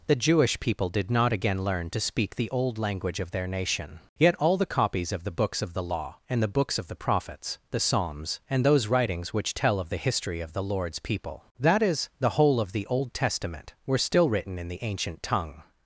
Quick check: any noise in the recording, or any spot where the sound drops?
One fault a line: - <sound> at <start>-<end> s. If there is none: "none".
none